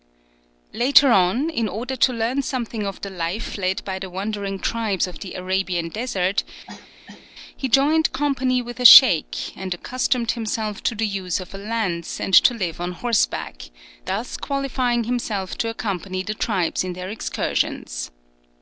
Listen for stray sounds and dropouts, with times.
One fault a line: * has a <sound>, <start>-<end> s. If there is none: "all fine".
* has a cough, 6.7-7.3 s